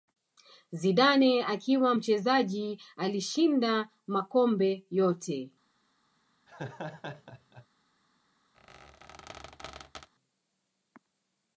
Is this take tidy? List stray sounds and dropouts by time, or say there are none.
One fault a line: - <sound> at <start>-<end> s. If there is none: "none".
- laugh at 6.5-7.7 s
- squeak at 8.5-10.1 s